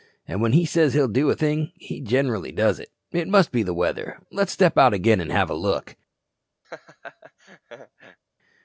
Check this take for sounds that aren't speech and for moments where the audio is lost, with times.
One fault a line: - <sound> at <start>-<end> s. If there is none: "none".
- laugh at 6.6-8.2 s